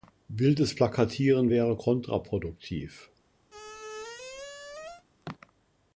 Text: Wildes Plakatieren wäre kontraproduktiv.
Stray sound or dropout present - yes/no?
yes